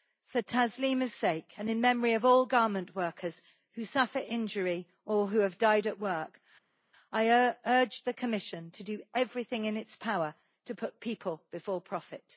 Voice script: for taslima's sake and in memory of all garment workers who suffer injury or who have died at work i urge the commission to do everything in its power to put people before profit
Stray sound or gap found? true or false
false